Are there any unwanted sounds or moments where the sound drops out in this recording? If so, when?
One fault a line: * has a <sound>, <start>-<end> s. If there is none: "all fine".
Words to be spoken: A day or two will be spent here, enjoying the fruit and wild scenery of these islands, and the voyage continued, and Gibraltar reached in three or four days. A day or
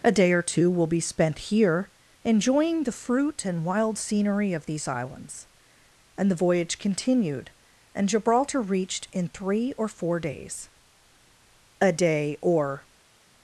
all fine